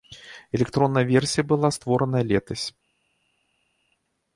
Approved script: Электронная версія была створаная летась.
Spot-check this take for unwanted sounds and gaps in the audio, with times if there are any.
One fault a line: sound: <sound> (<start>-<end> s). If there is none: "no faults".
no faults